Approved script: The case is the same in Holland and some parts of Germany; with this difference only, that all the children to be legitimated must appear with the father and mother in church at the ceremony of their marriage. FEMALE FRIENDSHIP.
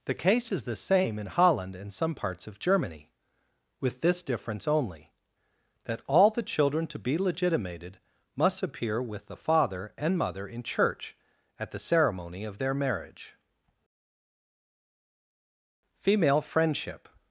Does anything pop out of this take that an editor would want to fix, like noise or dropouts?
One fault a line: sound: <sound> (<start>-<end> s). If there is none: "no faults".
no faults